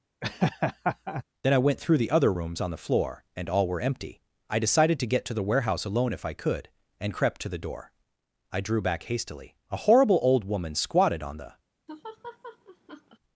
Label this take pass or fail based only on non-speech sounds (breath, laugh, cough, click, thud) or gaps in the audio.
fail